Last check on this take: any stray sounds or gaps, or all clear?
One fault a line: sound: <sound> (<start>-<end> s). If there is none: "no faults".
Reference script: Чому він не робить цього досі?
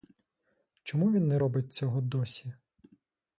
no faults